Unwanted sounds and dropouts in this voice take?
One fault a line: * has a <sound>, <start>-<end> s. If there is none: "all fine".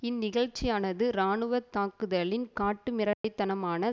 * has a dropout, 3.1-3.2 s